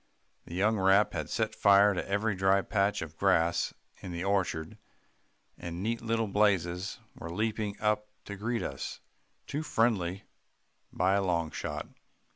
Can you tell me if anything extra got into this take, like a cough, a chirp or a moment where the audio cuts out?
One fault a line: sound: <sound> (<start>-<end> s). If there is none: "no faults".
no faults